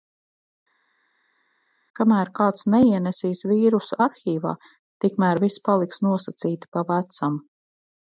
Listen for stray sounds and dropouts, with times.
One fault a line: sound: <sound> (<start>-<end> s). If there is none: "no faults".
no faults